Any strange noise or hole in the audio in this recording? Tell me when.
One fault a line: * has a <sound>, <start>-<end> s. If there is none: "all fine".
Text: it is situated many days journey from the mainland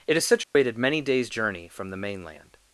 * has a dropout, 0.4-0.6 s